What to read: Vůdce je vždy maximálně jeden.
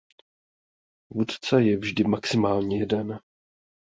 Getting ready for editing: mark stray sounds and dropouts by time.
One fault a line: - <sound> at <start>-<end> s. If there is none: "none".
none